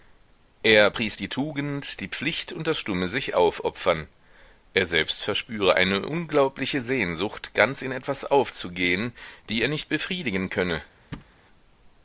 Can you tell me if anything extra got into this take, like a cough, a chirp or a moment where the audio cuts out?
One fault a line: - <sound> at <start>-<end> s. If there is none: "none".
- thud at 11.1-11.3 s